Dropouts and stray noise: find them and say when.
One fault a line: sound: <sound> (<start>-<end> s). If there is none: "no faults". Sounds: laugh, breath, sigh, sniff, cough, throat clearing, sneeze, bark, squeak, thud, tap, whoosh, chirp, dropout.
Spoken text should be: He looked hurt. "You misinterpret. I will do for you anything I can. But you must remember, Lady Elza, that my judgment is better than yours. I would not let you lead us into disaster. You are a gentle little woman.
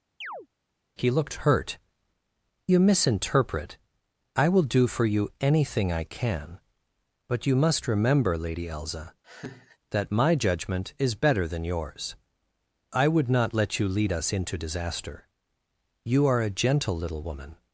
sound: chirp (0.2-0.5 s)
sound: laugh (9.2-9.8 s)